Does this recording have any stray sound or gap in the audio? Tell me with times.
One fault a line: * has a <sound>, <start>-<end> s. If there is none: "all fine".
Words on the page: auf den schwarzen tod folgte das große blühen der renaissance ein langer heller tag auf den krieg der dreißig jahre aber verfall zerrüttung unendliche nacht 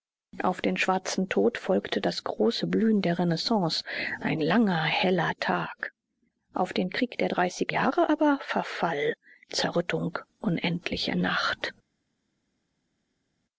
all fine